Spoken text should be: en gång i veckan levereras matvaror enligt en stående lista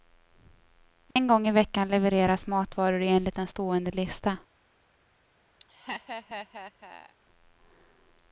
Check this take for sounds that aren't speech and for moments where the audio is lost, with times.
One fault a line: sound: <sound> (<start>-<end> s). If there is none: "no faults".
sound: dropout (1.1-1.2 s)
sound: laugh (5.6-7.2 s)